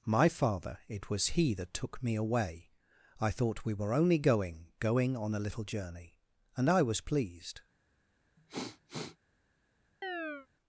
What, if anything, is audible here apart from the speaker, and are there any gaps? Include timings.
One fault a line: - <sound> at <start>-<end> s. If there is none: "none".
- sniff at 8.4-9.2 s
- chirp at 10.0-10.5 s